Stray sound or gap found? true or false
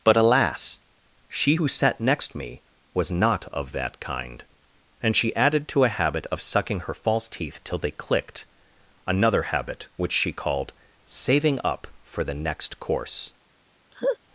true